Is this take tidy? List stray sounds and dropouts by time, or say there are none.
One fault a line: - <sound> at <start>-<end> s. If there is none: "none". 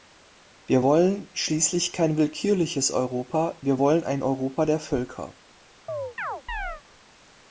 - chirp at 5.9-6.8 s